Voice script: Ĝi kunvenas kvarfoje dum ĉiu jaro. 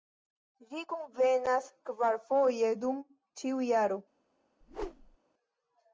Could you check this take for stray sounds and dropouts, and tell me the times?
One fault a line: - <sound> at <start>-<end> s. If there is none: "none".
- whoosh at 4.6-5.2 s